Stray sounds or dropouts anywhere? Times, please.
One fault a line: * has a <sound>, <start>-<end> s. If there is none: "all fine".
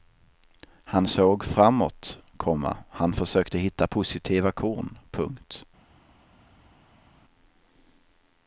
all fine